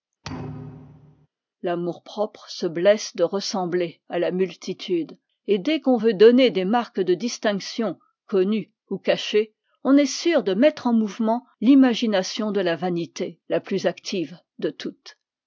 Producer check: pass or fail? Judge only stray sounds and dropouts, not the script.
fail